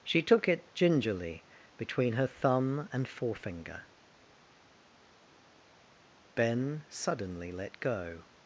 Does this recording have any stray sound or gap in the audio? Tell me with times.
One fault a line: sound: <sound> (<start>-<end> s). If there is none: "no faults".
no faults